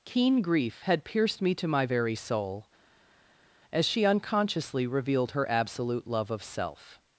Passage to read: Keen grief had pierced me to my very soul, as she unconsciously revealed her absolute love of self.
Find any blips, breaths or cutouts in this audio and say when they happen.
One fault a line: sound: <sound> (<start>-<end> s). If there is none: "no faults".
no faults